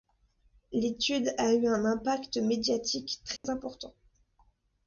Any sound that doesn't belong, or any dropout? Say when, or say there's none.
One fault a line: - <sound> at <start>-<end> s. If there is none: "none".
- dropout at 3.4-3.4 s